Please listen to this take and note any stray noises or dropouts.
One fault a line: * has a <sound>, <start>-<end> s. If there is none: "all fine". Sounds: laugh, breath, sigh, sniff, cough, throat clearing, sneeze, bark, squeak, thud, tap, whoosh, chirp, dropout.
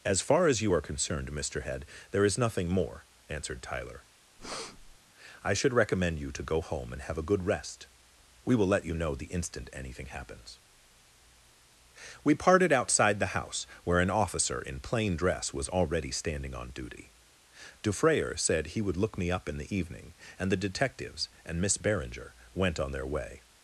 * has a breath, 4.4-5.0 s